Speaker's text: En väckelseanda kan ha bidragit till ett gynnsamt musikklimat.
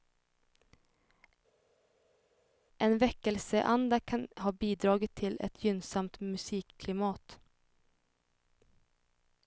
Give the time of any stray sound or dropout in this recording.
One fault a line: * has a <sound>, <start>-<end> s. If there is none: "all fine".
all fine